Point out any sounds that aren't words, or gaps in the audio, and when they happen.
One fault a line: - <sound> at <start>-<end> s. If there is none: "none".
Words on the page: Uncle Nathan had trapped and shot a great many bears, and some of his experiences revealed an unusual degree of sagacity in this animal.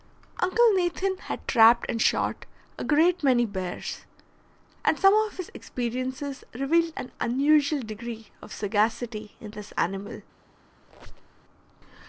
- squeak at 10.8-11.4 s